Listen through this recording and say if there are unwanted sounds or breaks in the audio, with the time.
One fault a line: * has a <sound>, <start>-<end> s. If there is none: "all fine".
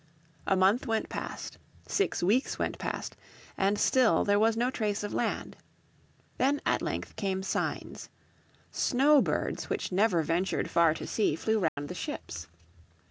* has a dropout, 11.7-11.8 s